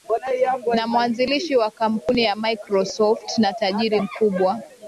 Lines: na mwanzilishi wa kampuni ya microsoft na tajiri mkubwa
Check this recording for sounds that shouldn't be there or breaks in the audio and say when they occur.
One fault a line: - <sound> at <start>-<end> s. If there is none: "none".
none